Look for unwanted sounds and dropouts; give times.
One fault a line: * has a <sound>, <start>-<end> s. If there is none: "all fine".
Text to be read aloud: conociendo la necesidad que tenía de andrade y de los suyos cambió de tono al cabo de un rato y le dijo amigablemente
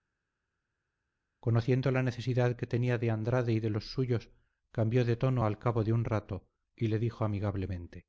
all fine